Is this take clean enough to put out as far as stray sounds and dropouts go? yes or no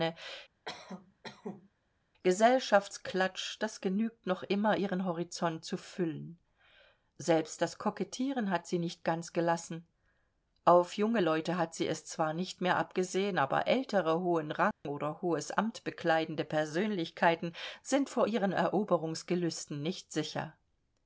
no